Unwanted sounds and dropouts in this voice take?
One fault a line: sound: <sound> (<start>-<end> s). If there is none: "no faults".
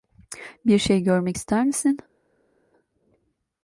no faults